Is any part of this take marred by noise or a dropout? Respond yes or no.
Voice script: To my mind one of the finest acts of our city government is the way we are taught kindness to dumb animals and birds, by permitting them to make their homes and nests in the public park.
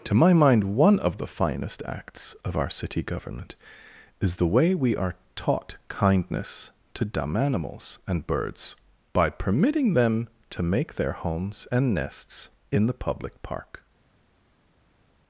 no